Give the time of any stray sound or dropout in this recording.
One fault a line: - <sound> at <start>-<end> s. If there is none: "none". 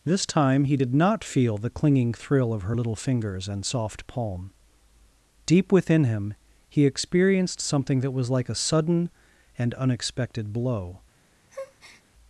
- breath at 11.5-12.0 s